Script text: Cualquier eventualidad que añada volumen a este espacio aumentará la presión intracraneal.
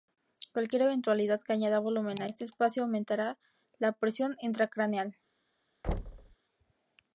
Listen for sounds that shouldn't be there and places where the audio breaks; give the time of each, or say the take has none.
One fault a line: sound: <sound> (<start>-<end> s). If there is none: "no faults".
sound: thud (5.8-6.4 s)